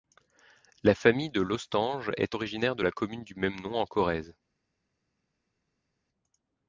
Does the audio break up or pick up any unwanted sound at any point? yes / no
no